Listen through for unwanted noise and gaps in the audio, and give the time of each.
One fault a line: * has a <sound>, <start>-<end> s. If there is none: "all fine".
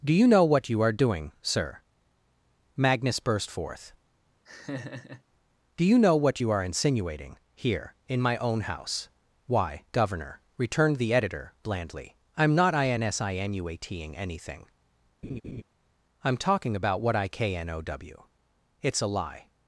* has a laugh, 4.4-5.2 s
* has a laugh, 15.2-15.6 s